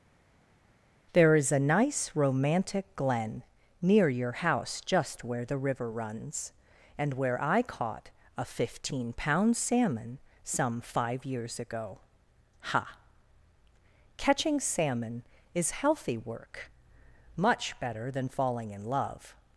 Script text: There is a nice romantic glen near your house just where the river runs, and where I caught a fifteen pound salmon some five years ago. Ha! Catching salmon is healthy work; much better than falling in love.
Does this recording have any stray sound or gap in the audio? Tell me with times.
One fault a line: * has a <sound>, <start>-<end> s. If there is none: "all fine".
all fine